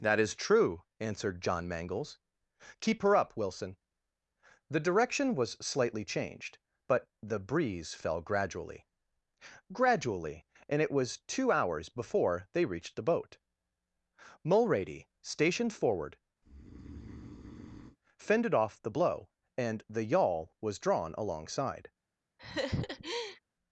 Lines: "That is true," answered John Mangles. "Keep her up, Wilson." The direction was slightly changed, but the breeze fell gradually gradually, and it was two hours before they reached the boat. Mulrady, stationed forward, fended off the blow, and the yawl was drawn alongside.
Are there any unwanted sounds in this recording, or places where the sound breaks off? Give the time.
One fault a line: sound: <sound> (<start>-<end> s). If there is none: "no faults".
sound: breath (16.4-18.0 s)
sound: laugh (22.4-23.4 s)